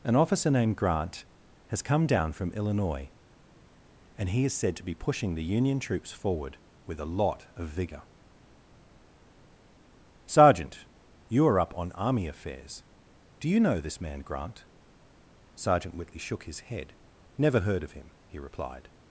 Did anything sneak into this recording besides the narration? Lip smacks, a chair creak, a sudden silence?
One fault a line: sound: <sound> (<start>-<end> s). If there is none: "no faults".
no faults